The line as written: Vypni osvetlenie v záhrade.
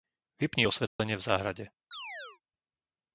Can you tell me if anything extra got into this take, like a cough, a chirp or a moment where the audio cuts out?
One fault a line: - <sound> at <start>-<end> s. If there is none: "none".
- dropout at 0.9-1.0 s
- chirp at 1.9-2.4 s